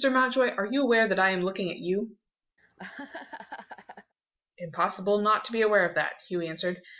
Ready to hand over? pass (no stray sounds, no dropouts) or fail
fail